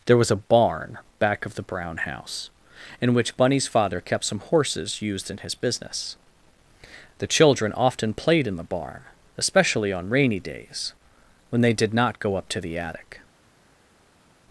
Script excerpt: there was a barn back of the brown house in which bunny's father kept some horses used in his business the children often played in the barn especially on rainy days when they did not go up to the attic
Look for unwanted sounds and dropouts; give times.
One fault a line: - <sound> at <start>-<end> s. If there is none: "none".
none